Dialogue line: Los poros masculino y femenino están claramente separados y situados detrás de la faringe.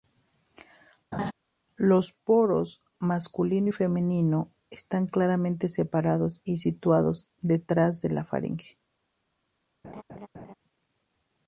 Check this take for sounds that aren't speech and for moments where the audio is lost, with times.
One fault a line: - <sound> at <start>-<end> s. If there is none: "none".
- laugh at 1.1-1.3 s
- laugh at 9.8-10.5 s